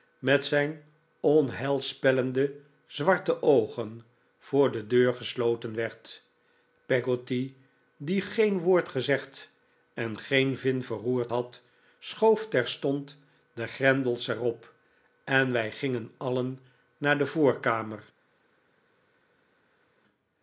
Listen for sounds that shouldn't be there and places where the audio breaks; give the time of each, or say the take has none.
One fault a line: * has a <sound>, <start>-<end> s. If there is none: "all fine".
all fine